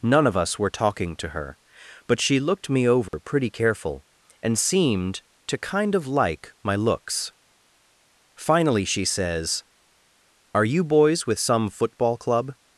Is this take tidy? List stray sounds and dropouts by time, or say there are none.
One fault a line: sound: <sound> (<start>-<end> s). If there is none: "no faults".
sound: dropout (3.1-3.1 s)